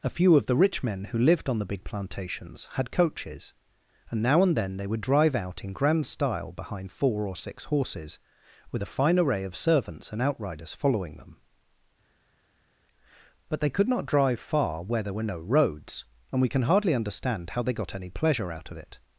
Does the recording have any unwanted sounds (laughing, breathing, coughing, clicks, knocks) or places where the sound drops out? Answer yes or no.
no